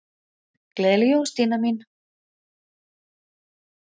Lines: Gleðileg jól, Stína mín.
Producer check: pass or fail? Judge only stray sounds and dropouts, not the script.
pass